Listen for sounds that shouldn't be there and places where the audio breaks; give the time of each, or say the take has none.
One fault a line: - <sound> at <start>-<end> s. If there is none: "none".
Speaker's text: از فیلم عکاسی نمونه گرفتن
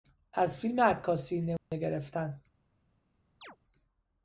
- dropout at 1.6-1.7 s
- chirp at 3.4-3.6 s